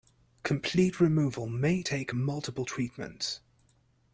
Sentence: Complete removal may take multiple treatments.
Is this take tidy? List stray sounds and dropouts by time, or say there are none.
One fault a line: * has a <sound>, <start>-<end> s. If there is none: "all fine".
all fine